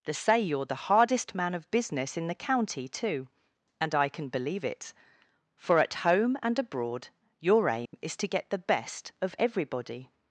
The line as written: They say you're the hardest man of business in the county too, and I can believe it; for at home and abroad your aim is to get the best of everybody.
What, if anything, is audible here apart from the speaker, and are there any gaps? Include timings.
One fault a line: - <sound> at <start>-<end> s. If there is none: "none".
- dropout at 7.9-7.9 s